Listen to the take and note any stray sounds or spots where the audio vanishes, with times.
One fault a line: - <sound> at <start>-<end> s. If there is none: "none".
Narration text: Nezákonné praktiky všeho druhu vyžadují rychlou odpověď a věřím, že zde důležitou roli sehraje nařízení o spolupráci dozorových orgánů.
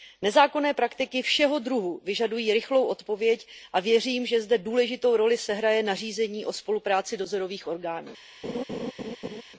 - laugh at 8.4-9.4 s